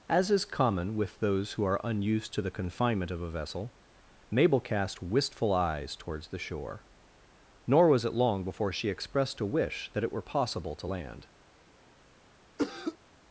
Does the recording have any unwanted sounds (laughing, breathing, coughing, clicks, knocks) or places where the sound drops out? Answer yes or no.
yes